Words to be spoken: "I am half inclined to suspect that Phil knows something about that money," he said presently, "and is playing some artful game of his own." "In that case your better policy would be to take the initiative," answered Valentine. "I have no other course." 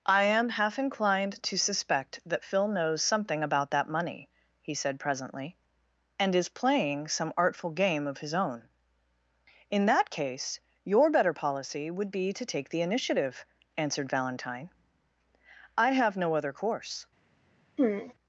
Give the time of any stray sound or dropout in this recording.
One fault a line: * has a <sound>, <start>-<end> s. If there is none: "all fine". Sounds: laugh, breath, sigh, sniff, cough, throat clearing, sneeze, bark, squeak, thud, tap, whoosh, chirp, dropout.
* has a throat clearing, 17.8-18.1 s